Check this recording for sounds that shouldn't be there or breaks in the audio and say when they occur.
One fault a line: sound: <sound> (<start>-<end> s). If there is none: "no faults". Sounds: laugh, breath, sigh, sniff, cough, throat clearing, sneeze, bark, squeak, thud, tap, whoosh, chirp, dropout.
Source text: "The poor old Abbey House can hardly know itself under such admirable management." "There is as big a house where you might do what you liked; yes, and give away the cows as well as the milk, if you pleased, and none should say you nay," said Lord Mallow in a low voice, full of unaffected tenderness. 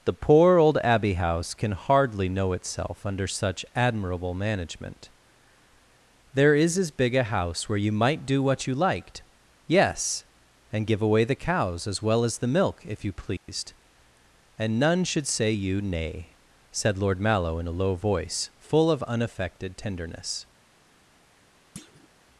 sound: dropout (13.4-13.5 s)
sound: thud (21.8-22.1 s)